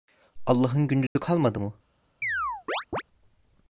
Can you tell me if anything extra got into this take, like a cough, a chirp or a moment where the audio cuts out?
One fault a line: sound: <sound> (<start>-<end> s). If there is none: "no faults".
sound: dropout (1.1-1.2 s)
sound: chirp (2.2-3.0 s)